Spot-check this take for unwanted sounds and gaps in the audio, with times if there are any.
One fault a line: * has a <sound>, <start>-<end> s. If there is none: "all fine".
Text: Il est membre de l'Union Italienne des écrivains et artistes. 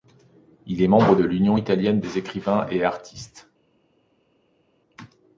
all fine